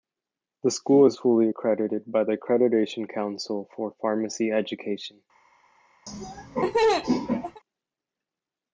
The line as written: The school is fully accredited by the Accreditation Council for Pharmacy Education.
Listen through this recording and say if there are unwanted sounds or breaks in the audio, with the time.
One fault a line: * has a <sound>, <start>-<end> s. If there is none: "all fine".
* has a laugh, 6.1-7.6 s